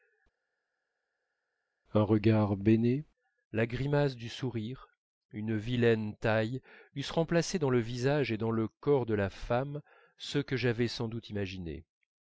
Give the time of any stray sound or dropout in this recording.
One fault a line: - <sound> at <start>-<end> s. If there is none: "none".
none